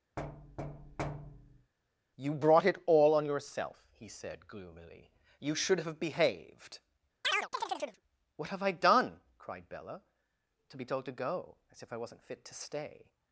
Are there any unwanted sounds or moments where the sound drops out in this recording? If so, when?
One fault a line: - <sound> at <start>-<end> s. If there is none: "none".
- thud at 0.2-1.7 s
- chirp at 7.2-8.0 s